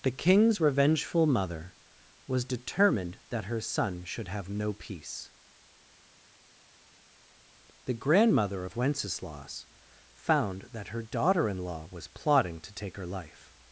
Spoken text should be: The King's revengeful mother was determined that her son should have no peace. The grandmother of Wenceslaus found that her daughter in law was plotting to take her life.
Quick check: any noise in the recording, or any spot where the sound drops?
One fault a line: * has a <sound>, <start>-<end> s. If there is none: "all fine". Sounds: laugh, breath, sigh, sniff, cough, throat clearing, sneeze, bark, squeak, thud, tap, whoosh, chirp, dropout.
all fine